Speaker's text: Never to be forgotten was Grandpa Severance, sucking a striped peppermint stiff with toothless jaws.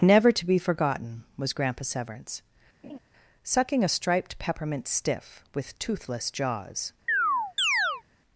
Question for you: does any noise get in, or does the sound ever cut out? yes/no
yes